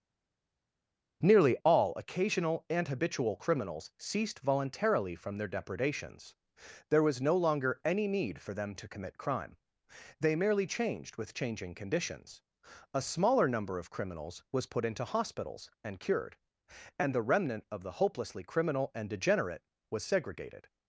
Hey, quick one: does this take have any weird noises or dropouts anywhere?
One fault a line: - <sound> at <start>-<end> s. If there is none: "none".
none